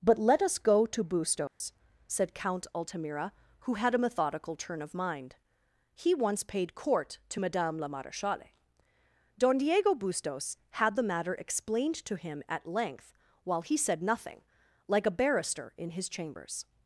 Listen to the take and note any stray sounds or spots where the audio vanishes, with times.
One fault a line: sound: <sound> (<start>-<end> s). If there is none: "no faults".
sound: dropout (1.5-1.6 s)